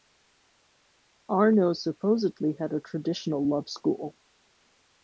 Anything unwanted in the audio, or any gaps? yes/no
no